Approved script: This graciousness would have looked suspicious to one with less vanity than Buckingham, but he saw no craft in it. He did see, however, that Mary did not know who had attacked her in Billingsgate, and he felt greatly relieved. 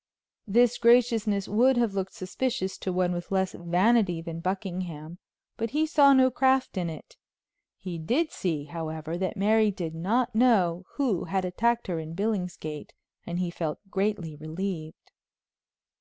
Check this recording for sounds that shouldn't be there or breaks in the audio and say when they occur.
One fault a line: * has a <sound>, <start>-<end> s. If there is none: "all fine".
all fine